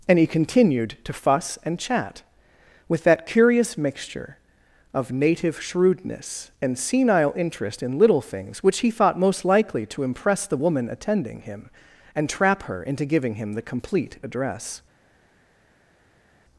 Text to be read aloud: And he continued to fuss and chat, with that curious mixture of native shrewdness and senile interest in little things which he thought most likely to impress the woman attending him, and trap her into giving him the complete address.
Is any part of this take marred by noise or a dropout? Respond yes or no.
no